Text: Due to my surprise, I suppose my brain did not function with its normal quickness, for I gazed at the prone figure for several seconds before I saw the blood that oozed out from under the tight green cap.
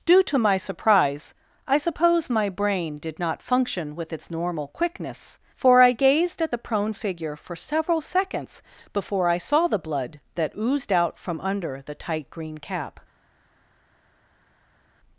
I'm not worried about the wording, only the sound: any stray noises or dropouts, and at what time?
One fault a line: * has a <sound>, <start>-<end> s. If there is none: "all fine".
all fine